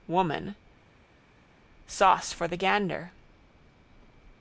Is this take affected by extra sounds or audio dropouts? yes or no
no